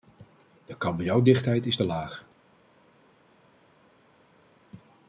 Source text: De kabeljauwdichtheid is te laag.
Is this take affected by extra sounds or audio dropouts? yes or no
no